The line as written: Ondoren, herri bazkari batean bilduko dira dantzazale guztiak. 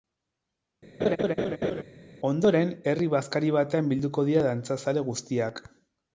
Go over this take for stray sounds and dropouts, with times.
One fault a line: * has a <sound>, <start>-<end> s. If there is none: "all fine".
* has a laugh, 1.0-1.8 s